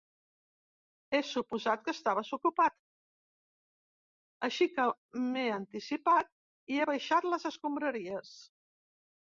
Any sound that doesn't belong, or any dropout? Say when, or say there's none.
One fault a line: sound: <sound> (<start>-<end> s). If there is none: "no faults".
no faults